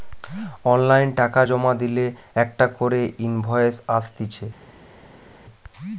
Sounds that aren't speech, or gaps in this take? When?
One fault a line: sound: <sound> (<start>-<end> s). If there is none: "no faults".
no faults